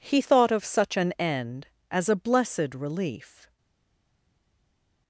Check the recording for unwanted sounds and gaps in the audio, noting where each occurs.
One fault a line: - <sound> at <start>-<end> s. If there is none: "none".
none